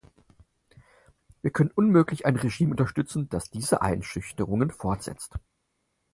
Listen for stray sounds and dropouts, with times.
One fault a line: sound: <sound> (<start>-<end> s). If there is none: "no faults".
no faults